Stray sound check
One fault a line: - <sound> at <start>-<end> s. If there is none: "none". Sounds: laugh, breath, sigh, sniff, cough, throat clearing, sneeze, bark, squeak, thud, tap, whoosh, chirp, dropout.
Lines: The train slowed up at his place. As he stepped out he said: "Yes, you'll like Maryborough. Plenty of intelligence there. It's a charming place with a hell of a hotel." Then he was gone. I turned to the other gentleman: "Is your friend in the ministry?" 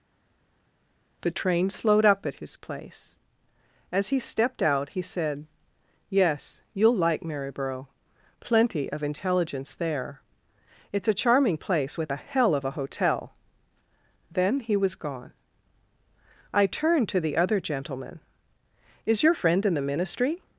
none